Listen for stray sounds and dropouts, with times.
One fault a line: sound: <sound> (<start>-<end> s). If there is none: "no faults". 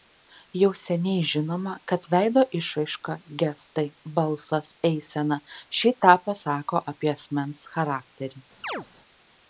sound: chirp (8.6-8.9 s)